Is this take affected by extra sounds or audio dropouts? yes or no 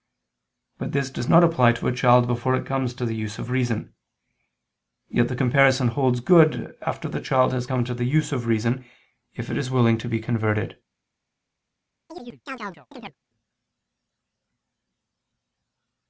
yes